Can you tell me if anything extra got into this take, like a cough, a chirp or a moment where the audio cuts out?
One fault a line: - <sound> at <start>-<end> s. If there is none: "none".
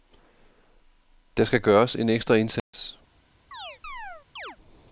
- dropout at 2.6-2.7 s
- chirp at 3.5-4.6 s